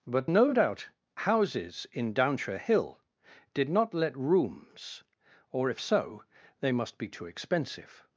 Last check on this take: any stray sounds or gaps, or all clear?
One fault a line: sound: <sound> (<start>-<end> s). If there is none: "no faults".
no faults